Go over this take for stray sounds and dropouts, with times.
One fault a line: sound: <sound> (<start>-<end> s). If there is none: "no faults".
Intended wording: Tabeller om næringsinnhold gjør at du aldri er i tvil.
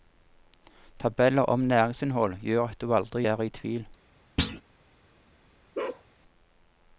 sound: thud (4.4-4.6 s)
sound: bark (5.7-6.0 s)